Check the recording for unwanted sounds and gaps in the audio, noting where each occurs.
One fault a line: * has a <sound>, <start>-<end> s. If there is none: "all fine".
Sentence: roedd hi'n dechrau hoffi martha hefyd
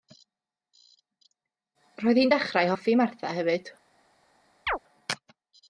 * has a chirp, 4.7-4.8 s